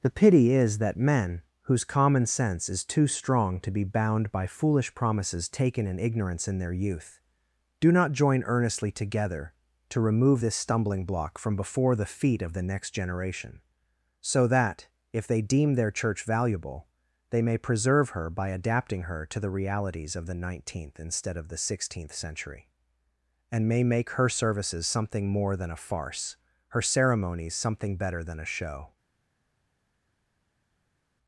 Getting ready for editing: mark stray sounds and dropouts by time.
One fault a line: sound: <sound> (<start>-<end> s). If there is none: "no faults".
no faults